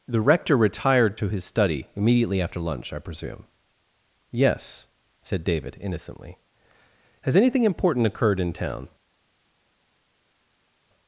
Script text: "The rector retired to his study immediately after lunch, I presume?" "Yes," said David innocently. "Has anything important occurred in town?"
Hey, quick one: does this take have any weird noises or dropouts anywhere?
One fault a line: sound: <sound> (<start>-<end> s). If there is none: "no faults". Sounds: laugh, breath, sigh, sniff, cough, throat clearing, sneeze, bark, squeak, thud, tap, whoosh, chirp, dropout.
no faults